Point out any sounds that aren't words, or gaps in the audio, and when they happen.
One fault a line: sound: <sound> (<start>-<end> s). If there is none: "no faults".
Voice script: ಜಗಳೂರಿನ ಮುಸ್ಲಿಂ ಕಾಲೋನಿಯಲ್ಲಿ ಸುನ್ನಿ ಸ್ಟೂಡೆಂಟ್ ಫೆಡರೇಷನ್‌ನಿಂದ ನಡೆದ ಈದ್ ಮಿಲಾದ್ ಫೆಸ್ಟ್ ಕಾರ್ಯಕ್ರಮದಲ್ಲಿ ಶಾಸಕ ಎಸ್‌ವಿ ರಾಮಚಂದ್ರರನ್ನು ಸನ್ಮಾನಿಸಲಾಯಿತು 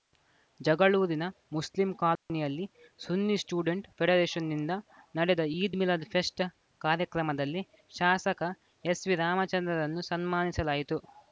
sound: dropout (2.2-2.3 s)